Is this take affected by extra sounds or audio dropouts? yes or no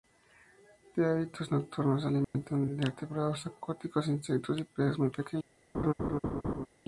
yes